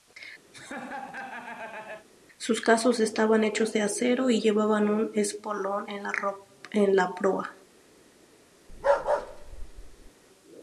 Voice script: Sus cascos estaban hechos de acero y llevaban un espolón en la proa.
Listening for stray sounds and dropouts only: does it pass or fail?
fail